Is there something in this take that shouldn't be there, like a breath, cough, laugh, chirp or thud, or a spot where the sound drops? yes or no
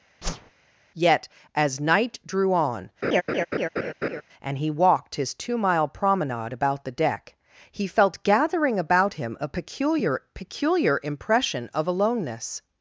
yes